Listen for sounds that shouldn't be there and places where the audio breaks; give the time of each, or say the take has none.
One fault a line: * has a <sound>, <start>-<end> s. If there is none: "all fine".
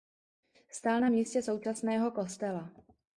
all fine